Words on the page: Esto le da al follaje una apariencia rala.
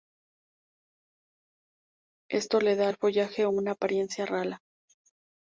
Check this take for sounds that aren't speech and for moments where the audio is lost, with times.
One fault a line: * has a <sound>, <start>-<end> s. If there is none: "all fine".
all fine